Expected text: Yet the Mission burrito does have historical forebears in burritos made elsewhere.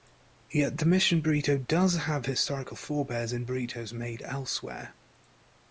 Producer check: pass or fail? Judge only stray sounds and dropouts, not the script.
pass